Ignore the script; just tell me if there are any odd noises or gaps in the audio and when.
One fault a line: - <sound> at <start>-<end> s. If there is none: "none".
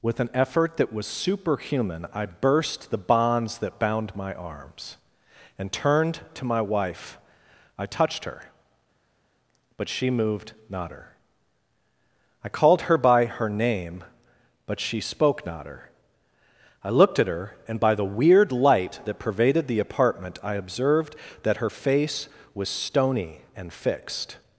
none